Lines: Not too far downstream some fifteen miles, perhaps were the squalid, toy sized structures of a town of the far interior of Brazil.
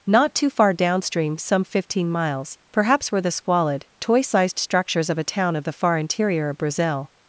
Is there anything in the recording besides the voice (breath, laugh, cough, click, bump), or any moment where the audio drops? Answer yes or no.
no